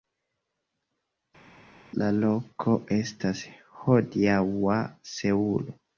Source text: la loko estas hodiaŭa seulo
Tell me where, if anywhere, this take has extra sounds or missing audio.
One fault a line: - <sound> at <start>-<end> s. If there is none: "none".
none